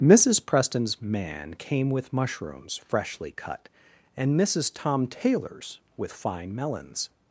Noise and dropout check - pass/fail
pass